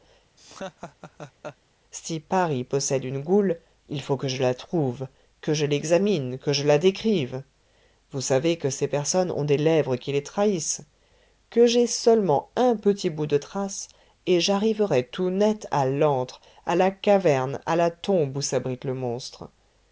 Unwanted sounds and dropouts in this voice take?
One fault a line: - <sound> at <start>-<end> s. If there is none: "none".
- laugh at 0.4-1.6 s